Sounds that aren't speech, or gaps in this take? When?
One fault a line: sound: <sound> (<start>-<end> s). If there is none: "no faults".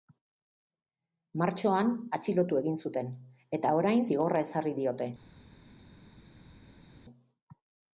no faults